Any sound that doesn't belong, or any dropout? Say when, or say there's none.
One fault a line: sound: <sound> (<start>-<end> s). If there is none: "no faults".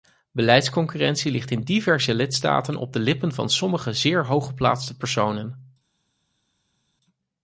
no faults